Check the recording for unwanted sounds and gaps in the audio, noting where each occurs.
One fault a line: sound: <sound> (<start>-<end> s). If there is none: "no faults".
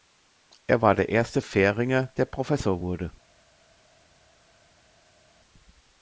no faults